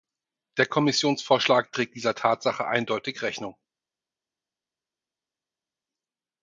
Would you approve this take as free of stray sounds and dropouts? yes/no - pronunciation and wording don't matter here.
yes